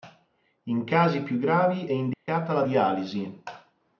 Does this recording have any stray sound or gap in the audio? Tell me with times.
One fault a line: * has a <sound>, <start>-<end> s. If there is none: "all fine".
* has a dropout, 2.1-2.3 s